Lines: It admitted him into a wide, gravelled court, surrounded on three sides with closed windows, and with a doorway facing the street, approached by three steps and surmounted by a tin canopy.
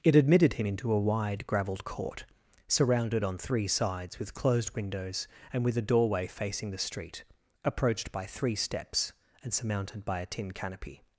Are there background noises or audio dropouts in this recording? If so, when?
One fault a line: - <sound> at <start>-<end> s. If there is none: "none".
none